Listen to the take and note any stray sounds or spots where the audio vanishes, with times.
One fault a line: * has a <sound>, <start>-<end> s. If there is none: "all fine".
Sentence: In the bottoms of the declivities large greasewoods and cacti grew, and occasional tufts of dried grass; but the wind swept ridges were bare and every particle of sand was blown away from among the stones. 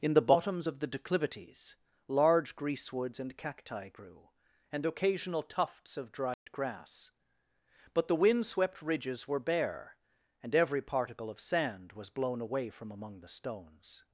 * has a dropout, 6.3-6.5 s